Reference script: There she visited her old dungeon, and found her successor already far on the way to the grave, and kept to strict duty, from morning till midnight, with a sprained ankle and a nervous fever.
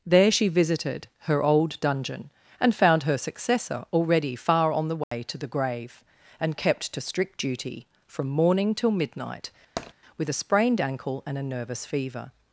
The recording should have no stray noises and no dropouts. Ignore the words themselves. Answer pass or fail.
fail